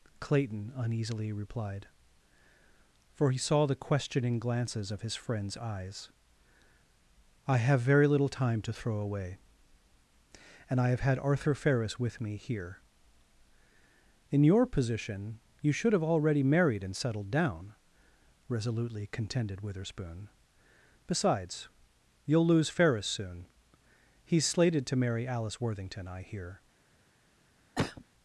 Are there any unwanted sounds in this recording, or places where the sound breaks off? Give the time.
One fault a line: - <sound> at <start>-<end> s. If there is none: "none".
- cough at 27.8-28.0 s